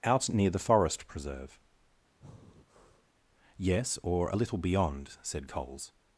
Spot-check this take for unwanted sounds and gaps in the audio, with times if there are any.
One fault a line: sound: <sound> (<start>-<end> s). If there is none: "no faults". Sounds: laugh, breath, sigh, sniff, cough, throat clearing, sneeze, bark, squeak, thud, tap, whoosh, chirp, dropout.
sound: breath (2.2-3.1 s)